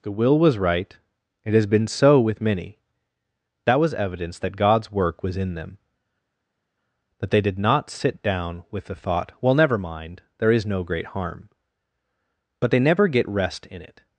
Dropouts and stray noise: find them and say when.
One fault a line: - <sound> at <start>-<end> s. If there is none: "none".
none